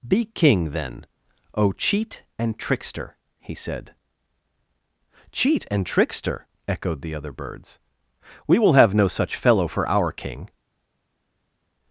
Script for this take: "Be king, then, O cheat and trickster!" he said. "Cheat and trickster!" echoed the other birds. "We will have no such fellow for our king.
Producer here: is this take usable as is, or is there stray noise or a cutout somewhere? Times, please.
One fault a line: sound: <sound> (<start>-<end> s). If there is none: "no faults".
no faults